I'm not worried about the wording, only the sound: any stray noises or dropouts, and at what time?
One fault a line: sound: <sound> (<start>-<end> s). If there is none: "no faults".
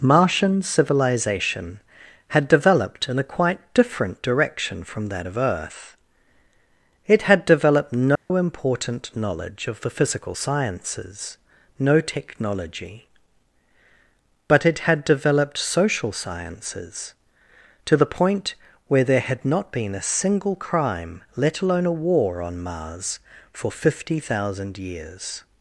sound: dropout (8.2-8.3 s)